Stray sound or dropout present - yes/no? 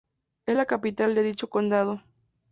no